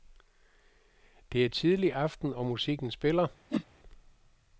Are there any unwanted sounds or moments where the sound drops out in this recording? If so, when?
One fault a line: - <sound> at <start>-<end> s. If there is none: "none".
- whoosh at 3.5-3.6 s